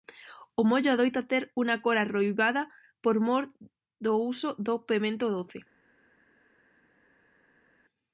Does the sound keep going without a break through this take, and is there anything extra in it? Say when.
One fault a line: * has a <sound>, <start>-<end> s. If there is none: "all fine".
all fine